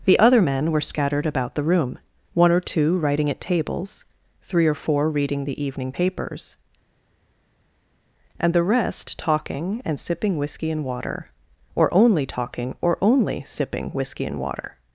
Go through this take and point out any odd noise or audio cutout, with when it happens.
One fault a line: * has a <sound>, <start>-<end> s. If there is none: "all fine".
all fine